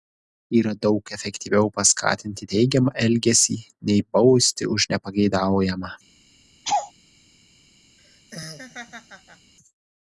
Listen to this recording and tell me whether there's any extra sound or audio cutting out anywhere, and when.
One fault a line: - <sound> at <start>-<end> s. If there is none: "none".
- laugh at 6.6-6.9 s
- laugh at 8.0-9.5 s